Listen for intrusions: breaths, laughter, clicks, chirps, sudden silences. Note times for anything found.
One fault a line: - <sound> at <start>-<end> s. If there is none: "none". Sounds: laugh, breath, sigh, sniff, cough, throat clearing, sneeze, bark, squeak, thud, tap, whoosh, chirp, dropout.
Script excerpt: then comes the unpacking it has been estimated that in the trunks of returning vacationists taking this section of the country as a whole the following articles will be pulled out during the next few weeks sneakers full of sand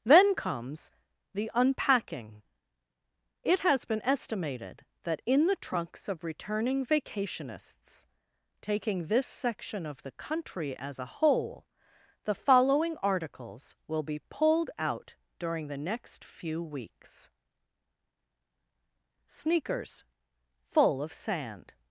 none